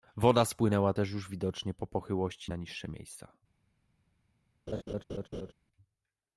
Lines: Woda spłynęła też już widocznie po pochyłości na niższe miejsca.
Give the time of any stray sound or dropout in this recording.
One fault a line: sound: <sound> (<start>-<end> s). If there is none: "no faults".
sound: laugh (4.7-5.5 s)